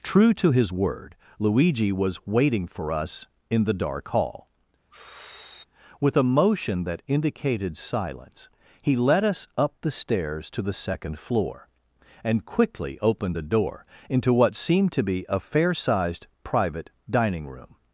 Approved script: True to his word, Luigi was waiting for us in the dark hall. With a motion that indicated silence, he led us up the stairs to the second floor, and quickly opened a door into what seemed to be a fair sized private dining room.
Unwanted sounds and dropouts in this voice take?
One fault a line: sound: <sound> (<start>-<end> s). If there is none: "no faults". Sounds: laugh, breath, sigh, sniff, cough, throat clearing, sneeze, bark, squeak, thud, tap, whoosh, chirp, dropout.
sound: sigh (4.9-5.6 s)